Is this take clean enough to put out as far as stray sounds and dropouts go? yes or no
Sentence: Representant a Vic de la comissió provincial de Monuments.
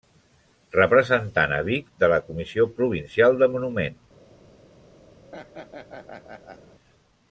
no